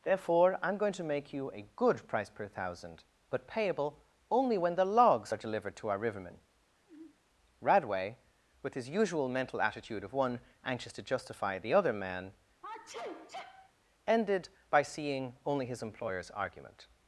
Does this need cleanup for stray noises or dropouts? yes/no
yes